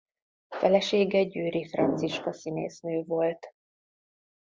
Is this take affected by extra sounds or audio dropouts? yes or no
no